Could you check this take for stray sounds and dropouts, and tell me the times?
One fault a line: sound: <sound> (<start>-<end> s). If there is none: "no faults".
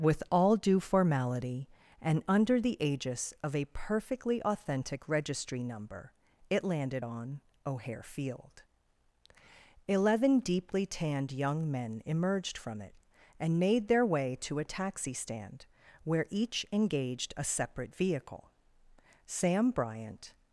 no faults